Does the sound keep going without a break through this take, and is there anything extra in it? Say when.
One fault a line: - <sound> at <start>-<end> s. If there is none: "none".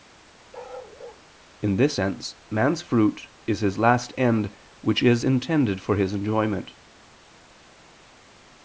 - bark at 0.5-1.2 s